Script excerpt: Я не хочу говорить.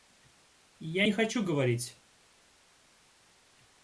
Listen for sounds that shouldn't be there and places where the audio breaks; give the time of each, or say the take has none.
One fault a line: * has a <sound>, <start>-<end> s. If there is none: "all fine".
all fine